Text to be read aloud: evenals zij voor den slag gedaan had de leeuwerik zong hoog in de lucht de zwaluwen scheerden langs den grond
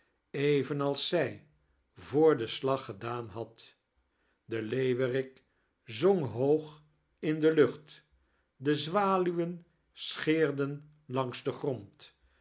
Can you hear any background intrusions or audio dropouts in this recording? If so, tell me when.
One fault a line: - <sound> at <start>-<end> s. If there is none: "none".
none